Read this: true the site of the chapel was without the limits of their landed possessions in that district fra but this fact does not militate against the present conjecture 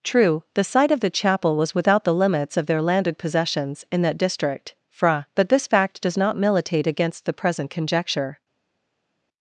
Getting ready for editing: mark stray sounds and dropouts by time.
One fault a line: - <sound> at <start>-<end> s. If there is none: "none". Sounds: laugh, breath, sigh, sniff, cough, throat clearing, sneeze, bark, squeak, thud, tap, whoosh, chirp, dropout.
none